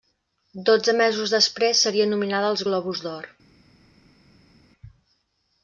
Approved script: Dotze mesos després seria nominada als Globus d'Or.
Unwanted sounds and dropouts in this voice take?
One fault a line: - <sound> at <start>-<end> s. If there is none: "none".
none